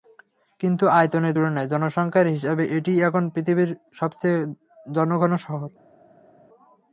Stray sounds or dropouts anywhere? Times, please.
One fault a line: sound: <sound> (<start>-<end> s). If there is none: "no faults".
no faults